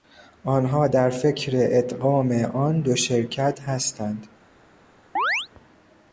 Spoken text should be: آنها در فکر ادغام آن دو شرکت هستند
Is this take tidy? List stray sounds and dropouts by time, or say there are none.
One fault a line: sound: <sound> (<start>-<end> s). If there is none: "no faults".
sound: chirp (5.2-5.5 s)